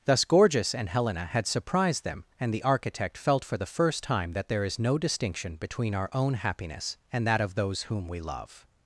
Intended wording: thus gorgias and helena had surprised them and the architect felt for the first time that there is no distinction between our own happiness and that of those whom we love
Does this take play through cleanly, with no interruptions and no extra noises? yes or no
yes